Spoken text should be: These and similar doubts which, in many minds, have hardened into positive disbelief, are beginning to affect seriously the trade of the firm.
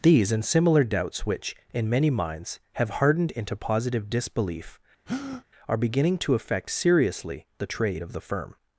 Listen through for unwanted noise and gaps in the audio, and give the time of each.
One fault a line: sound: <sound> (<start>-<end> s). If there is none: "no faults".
sound: breath (5.1-5.4 s)